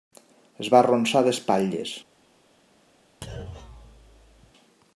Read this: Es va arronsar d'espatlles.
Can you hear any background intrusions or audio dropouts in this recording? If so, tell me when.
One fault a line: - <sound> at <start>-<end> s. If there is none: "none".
- thud at 3.2-4.5 s